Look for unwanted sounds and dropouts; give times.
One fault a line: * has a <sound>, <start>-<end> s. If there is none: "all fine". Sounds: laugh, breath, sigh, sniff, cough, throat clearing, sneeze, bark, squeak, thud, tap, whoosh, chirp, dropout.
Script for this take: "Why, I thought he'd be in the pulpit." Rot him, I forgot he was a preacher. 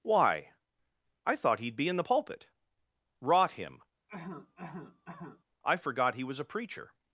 * has a cough, 4.1-5.4 s